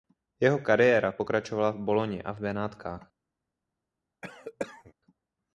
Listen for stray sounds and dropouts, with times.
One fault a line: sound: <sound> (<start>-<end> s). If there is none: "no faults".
sound: cough (4.2-4.9 s)